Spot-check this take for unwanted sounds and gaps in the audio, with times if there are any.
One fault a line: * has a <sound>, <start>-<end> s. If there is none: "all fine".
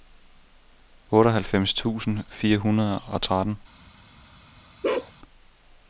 * has a bark, 4.8-5.1 s